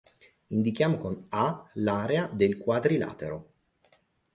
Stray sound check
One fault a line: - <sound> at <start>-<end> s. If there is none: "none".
none